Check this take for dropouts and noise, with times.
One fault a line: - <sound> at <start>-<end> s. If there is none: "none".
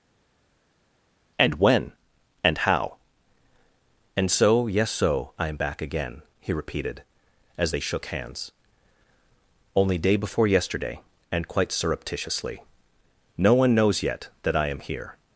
none